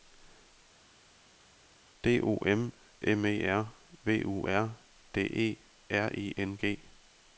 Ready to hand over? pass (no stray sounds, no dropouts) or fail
pass